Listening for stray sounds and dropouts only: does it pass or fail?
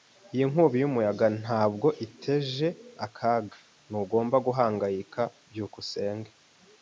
pass